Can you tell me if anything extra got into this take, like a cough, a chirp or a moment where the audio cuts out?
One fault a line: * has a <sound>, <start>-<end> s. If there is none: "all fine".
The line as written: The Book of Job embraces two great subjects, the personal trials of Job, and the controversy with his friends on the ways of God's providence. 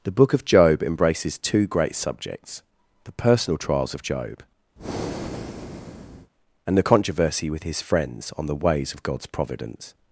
* has a breath, 4.8-6.3 s